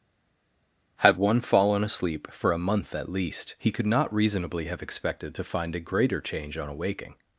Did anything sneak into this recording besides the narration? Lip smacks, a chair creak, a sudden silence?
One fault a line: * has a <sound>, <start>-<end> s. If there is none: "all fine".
all fine